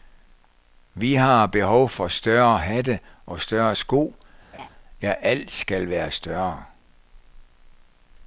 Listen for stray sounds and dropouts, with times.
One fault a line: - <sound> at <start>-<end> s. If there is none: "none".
- laugh at 4.5-4.7 s